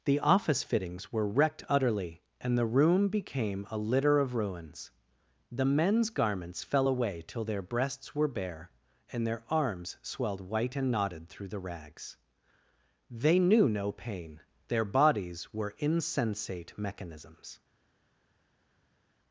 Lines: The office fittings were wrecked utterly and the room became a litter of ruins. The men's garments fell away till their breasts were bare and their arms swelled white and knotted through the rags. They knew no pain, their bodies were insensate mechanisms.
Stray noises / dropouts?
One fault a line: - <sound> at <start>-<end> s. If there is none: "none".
none